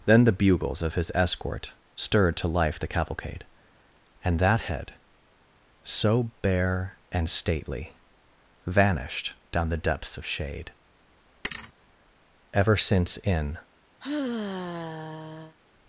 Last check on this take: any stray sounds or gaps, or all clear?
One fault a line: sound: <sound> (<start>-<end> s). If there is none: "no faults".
sound: thud (11.4-11.7 s)
sound: sigh (14.0-15.5 s)